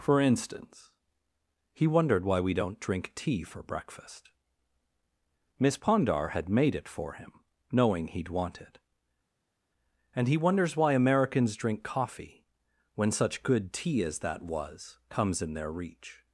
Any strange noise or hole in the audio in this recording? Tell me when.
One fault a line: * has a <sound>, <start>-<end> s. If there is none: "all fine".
all fine